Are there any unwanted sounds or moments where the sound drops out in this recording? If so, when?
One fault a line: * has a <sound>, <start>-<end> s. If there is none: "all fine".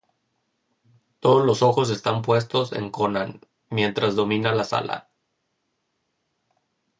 all fine